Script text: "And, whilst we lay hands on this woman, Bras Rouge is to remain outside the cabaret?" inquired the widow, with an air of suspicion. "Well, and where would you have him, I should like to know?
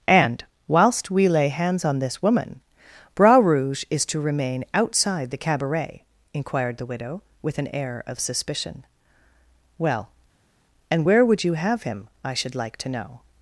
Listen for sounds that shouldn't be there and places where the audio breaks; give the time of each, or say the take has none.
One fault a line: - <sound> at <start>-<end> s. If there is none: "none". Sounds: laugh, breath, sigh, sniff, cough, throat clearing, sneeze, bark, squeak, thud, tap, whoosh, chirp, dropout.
none